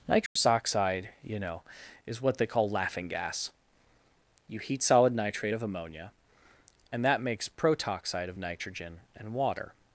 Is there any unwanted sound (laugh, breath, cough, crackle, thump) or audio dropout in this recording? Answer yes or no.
yes